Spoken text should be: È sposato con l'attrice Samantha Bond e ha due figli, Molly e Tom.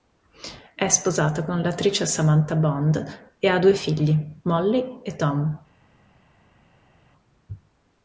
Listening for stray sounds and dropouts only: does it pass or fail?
pass